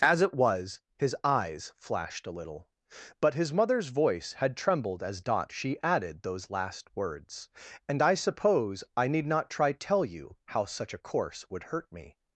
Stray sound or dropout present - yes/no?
no